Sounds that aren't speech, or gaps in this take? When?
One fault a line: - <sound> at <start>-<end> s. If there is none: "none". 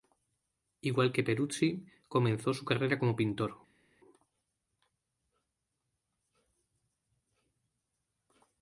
none